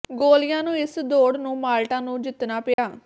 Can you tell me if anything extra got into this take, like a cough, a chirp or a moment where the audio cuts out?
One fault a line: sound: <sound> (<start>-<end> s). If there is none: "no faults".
sound: dropout (2.7-2.8 s)